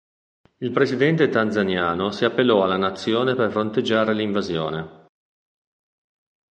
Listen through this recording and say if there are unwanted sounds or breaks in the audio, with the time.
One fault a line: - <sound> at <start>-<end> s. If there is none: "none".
none